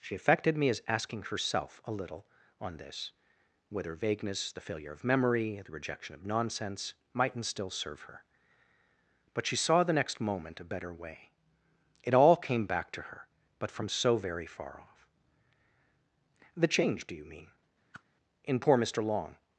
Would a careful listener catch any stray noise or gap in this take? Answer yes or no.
yes